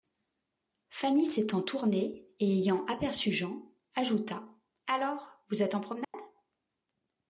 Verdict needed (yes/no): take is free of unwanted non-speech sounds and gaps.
no